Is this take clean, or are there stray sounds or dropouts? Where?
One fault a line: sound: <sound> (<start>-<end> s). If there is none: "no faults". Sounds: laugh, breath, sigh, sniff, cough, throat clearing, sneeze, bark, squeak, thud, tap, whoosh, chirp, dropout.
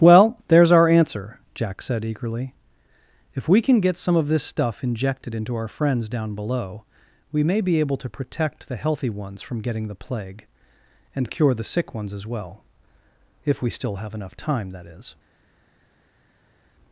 no faults